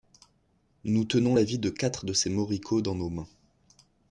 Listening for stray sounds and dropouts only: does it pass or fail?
pass